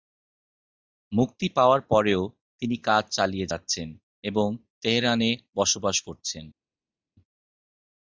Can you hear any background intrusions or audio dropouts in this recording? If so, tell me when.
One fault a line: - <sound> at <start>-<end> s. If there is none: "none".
none